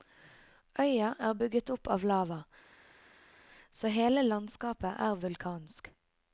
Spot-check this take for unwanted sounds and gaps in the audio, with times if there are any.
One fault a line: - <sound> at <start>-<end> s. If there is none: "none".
none